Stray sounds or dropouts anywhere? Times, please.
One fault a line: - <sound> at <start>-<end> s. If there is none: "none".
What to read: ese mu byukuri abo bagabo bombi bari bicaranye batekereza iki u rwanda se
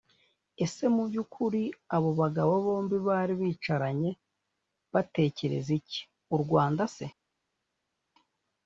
none